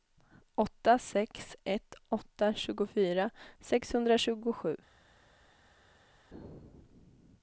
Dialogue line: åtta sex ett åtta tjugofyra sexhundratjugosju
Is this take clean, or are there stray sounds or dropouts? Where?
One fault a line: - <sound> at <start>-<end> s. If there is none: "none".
none